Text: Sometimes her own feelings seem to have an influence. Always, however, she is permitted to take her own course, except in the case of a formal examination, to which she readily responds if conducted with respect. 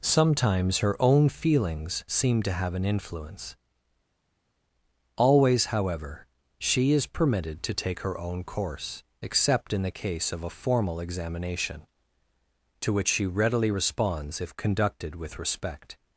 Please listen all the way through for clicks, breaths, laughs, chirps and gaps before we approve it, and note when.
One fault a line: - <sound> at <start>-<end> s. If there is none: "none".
none